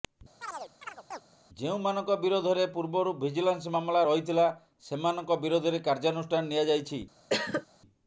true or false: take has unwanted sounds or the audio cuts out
true